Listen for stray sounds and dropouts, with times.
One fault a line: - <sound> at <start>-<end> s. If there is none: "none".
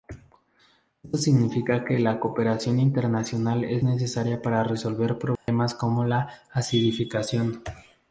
- dropout at 5.4-5.5 s